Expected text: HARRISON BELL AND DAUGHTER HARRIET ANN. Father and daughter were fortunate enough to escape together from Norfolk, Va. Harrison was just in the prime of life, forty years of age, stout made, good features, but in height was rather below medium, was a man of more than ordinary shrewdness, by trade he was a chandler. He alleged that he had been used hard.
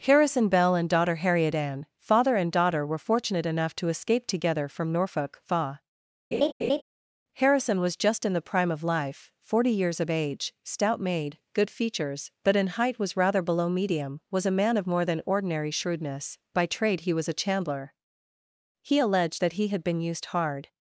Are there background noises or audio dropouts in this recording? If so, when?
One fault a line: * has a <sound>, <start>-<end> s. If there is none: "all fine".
* has a laugh, 6.3-6.8 s